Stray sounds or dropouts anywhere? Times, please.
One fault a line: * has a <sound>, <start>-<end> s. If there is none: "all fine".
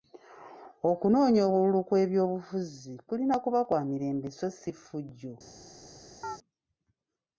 * has a chirp, 6.2-6.4 s